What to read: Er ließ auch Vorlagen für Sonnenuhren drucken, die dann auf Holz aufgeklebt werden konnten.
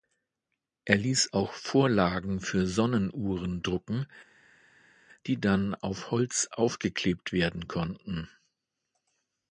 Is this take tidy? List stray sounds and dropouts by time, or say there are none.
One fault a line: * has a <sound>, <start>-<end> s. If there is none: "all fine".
all fine